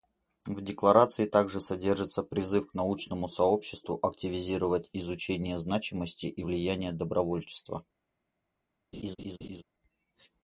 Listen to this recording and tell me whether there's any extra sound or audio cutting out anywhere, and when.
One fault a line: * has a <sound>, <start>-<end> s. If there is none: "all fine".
* has a laugh, 8.9-9.6 s